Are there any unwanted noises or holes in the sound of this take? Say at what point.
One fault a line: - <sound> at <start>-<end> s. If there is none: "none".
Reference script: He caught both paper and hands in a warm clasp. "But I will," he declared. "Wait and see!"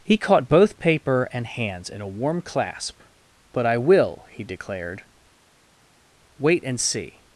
none